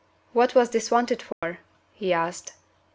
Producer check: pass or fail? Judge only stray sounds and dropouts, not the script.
fail